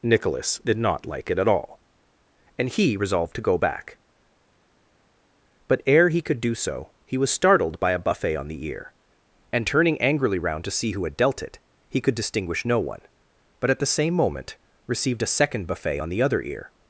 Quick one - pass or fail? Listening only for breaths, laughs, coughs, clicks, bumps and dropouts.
pass